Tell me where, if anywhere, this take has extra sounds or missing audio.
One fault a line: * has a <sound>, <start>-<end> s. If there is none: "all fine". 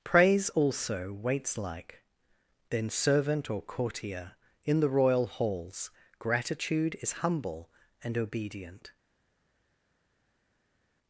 all fine